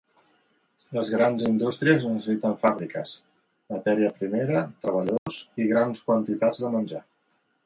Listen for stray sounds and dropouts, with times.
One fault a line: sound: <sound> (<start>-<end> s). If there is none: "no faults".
sound: dropout (5.2-5.3 s)